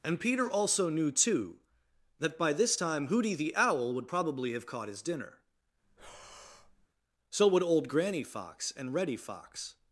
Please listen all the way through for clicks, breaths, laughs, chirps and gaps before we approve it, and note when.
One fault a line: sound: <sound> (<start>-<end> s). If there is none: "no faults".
sound: breath (5.8-6.9 s)